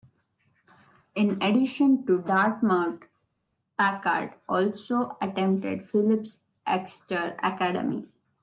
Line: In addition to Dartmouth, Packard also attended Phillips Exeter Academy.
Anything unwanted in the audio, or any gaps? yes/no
no